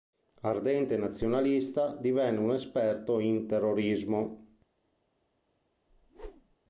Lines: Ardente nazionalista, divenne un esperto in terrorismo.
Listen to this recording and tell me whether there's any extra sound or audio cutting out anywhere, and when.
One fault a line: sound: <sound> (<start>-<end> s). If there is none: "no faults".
sound: whoosh (5.9-6.6 s)